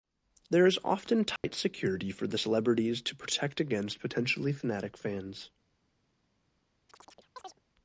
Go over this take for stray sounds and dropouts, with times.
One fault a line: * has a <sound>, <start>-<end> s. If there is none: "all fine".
* has a dropout, 1.4-1.4 s
* has a chirp, 6.9-7.6 s